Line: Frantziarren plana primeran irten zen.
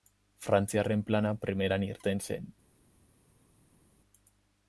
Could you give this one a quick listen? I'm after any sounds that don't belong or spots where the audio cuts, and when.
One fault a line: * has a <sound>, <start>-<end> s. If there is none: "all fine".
all fine